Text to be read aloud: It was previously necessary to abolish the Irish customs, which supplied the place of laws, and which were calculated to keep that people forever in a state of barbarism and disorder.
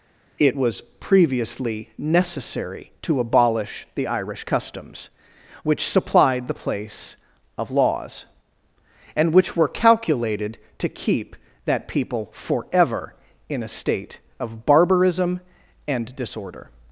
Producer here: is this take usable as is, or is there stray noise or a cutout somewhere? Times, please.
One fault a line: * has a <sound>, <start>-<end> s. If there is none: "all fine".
all fine